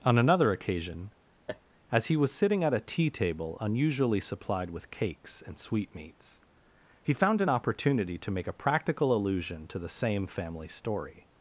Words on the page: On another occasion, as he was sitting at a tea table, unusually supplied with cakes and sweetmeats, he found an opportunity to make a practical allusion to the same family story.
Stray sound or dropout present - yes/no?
yes